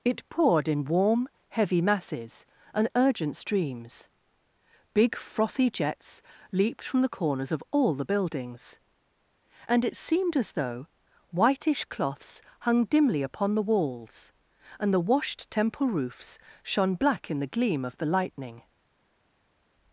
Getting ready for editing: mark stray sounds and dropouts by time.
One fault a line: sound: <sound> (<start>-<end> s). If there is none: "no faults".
no faults